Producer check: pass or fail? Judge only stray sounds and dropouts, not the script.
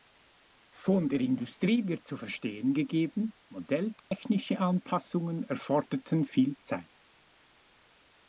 fail